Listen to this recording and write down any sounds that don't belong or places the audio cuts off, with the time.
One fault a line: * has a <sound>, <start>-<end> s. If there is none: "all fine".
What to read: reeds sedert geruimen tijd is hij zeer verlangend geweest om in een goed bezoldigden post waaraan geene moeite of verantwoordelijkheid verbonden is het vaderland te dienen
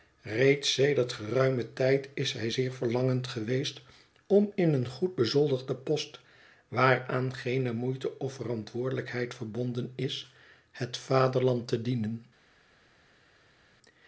all fine